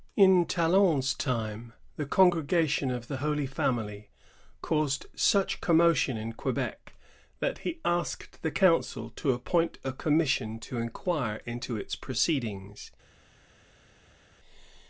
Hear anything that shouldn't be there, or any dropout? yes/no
no